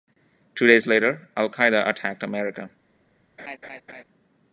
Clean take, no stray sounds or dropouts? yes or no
no